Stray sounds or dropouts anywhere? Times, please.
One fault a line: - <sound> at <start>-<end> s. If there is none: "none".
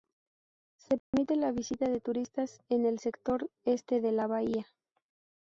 - dropout at 1.0-1.1 s